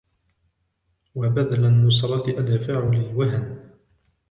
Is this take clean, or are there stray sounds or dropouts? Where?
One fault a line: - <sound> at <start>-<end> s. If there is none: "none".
none